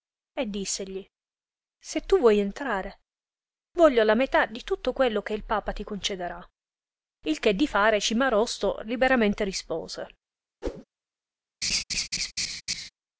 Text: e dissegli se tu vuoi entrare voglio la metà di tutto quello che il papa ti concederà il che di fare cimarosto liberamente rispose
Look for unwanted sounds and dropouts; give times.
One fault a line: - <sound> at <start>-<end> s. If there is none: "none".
- whoosh at 10.6-10.8 s
- laugh at 11.6-12.9 s